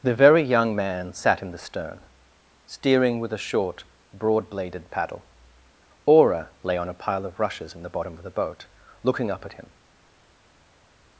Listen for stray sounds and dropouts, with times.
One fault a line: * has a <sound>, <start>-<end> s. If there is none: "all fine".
all fine